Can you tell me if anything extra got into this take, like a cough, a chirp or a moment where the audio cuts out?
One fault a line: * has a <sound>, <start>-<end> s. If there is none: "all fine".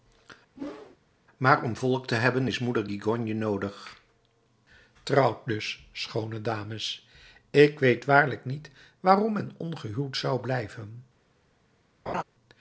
* has a whoosh, 0.6-1.0 s
* has a laugh, 12.1-12.2 s